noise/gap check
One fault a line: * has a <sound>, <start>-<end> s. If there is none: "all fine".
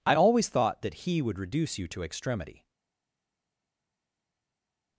all fine